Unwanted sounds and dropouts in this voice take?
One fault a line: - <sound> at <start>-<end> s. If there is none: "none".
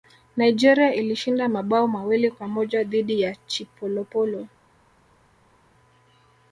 none